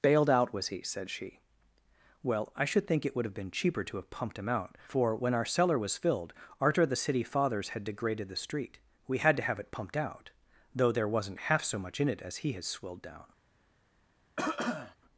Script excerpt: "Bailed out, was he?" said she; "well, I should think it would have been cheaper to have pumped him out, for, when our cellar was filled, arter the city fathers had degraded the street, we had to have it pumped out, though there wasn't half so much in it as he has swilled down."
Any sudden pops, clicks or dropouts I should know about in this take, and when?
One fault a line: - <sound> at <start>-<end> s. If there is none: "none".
- cough at 14.4-15.0 s